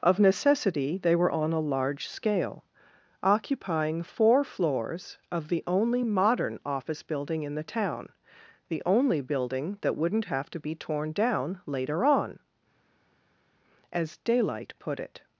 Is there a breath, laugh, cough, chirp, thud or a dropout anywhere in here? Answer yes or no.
no